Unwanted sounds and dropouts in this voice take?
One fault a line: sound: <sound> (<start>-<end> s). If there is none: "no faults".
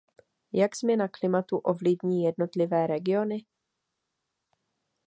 no faults